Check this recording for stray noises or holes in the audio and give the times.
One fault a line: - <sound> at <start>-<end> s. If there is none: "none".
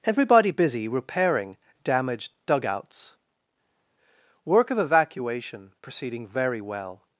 none